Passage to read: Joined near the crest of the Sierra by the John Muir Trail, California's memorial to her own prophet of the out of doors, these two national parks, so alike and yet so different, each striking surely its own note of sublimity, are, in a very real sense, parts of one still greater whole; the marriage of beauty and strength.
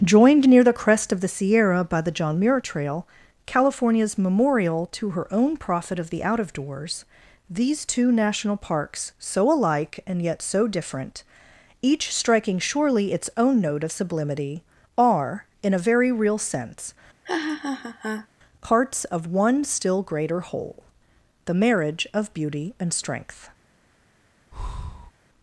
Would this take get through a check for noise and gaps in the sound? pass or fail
fail